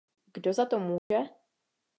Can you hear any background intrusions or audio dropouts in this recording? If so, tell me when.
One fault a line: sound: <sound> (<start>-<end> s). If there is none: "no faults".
sound: dropout (1.0-1.1 s)